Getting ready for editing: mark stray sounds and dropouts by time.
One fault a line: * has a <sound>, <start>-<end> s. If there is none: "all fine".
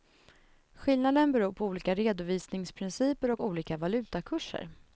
all fine